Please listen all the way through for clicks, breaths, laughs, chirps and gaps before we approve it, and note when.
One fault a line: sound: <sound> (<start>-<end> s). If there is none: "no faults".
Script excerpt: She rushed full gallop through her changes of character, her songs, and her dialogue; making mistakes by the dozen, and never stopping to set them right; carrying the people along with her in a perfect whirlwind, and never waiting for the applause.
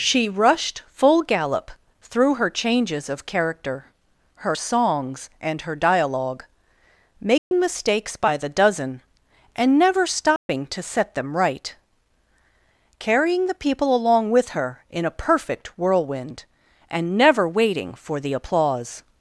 sound: dropout (7.4-7.5 s)
sound: dropout (10.4-10.5 s)